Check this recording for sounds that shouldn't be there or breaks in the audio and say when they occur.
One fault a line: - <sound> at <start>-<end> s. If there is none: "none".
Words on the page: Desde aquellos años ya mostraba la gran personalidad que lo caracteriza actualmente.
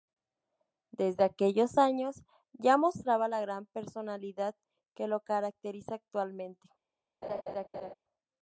- laugh at 7.2-7.9 s